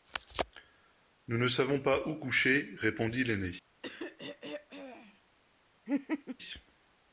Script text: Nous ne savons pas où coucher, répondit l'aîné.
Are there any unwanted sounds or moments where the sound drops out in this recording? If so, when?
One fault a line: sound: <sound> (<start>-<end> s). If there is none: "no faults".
sound: throat clearing (3.8-5.2 s)
sound: laugh (5.9-6.4 s)